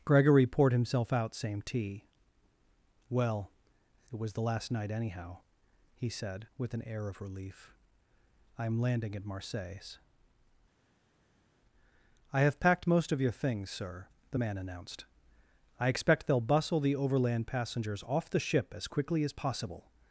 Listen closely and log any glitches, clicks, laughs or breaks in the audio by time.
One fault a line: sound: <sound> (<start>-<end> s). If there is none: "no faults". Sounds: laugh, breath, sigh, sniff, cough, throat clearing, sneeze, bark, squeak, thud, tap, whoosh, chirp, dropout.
no faults